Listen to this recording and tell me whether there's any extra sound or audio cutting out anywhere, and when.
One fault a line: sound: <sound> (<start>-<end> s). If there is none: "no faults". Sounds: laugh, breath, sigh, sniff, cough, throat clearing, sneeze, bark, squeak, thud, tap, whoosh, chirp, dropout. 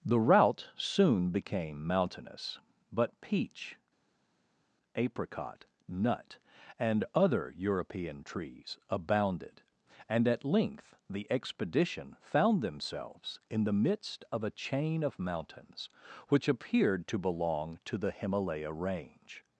no faults